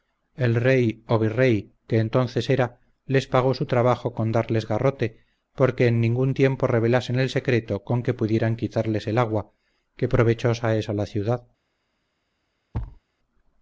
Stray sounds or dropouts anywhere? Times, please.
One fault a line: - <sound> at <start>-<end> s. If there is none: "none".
- thud at 12.7-13.0 s